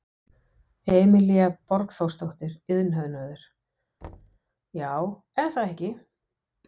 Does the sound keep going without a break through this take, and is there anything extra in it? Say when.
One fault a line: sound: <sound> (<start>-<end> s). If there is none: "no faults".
sound: thud (4.0-4.4 s)